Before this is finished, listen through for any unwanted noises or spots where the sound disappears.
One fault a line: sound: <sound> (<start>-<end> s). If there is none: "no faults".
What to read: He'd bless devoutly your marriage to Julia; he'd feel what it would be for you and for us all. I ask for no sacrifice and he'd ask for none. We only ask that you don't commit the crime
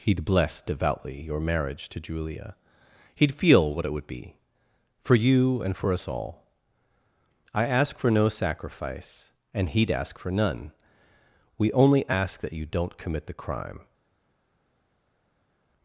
no faults